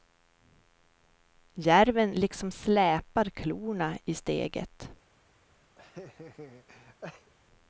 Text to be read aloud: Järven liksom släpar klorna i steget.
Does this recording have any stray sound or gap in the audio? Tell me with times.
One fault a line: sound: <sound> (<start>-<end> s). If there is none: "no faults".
sound: laugh (5.8-7.3 s)